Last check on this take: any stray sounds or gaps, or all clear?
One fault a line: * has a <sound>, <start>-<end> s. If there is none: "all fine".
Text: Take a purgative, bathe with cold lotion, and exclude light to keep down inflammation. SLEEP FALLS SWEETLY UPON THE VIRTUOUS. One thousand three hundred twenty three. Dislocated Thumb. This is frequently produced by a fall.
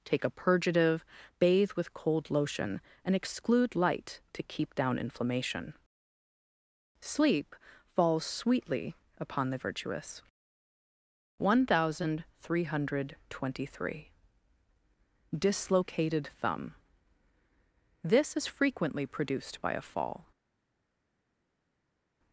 all fine